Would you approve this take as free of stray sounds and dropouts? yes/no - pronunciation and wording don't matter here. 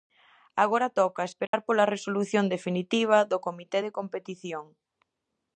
no